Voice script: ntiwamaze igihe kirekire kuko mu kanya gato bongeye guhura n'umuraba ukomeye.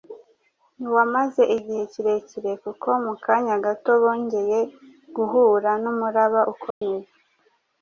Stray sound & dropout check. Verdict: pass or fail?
fail